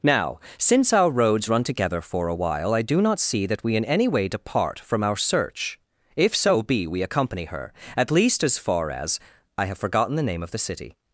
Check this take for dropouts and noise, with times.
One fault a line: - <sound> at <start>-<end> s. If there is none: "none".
none